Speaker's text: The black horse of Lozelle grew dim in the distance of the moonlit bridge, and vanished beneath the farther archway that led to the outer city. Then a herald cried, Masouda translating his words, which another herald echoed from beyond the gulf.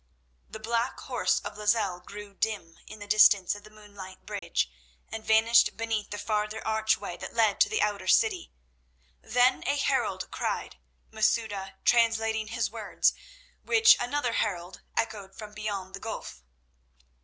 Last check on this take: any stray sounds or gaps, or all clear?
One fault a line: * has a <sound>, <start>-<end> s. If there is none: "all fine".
* has a dropout, 4.4-4.4 s